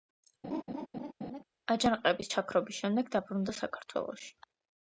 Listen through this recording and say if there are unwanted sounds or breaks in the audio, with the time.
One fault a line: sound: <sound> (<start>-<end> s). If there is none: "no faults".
sound: laugh (0.4-1.4 s)